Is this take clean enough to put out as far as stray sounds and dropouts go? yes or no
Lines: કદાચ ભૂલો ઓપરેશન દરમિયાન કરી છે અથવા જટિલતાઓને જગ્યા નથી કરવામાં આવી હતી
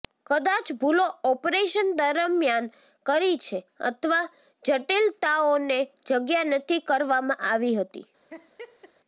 no